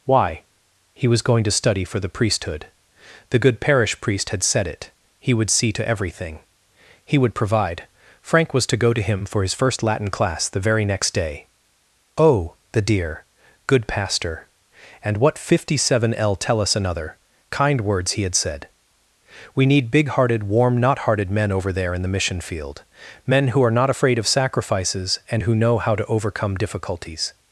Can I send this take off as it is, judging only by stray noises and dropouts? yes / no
yes